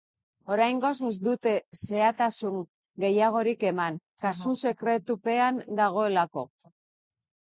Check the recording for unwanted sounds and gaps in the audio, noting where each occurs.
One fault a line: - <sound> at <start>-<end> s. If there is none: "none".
none